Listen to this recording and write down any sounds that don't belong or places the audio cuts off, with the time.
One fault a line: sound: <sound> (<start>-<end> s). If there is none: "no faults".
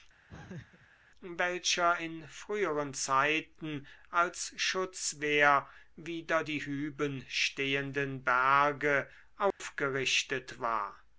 sound: laugh (0.3-0.9 s)
sound: dropout (9.5-9.6 s)